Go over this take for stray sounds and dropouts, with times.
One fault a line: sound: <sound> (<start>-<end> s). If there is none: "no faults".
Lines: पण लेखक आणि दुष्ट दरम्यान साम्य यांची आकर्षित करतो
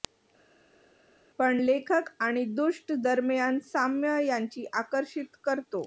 no faults